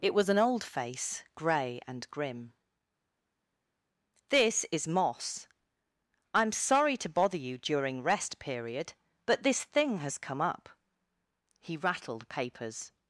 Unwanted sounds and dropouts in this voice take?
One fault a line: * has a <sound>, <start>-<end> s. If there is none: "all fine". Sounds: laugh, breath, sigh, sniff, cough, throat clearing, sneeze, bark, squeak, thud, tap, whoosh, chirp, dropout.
all fine